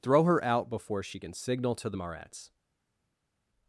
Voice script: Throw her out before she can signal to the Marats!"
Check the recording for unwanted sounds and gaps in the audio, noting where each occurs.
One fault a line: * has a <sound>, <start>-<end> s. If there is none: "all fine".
all fine